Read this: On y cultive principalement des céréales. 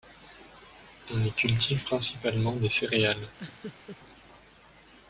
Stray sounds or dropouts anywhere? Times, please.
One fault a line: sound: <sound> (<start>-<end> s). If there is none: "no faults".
sound: laugh (3.4-4.0 s)